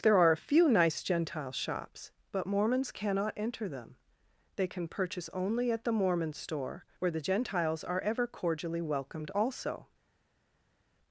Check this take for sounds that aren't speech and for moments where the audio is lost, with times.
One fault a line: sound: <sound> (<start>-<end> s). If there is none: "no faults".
no faults